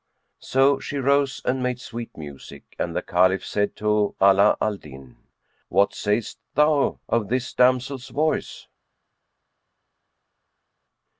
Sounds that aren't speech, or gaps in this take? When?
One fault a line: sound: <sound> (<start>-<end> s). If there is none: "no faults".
no faults